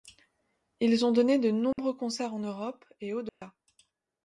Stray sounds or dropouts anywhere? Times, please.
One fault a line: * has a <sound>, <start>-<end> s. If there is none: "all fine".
* has a dropout, 1.7-1.8 s
* has a dropout, 3.3-3.4 s